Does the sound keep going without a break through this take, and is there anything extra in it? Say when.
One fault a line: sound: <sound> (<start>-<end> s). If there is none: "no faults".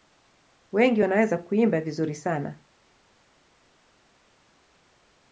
no faults